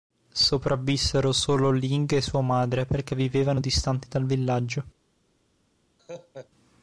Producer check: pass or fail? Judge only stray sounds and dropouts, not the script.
fail